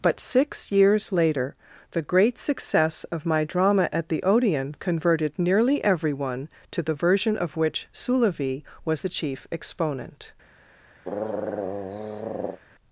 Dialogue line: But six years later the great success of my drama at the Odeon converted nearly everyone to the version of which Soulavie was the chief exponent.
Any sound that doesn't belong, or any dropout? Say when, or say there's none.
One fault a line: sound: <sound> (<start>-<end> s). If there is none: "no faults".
sound: throat clearing (11.0-12.6 s)